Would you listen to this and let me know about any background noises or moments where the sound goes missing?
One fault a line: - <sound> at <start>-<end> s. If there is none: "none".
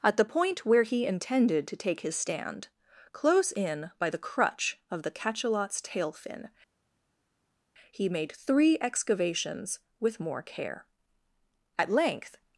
none